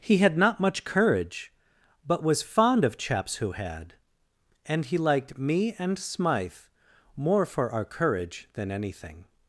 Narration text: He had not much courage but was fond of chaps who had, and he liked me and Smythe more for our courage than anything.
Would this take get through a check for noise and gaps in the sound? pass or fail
pass